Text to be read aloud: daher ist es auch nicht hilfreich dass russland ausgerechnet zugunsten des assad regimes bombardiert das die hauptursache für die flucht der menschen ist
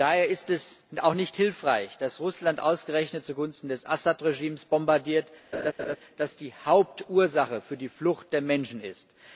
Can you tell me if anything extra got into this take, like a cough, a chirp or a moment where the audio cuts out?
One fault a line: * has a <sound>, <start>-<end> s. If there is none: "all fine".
* has a laugh, 5.5-6.0 s